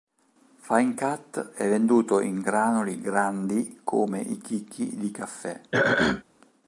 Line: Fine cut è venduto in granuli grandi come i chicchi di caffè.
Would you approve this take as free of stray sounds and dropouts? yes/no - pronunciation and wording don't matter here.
no